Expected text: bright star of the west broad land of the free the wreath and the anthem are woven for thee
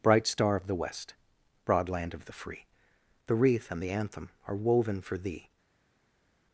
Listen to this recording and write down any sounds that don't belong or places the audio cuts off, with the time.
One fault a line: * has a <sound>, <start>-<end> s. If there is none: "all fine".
all fine